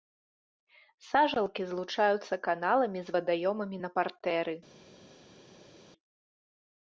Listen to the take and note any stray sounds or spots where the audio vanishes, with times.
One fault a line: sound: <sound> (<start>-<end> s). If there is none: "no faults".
no faults